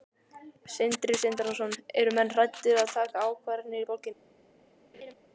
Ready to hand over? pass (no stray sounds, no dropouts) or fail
fail